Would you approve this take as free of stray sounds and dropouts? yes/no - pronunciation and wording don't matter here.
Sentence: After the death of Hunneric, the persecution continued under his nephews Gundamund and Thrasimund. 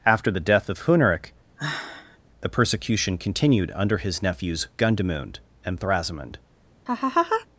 no